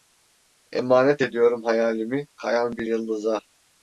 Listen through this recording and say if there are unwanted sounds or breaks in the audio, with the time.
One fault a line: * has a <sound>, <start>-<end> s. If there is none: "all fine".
all fine